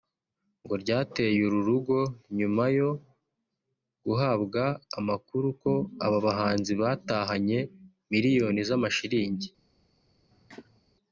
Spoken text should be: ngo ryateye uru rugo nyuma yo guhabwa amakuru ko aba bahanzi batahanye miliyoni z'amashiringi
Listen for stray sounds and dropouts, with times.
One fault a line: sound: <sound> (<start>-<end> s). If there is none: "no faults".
sound: cough (10.3-10.8 s)